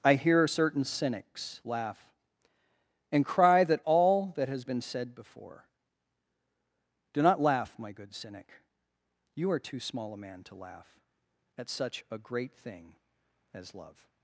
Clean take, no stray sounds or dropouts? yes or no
yes